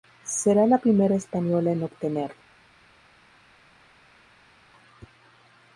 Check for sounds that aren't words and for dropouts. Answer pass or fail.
pass